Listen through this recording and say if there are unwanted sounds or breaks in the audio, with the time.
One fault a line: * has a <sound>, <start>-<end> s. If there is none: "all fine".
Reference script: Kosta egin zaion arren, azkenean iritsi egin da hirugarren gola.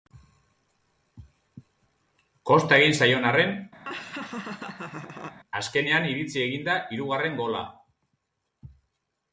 * has a laugh, 3.8-5.4 s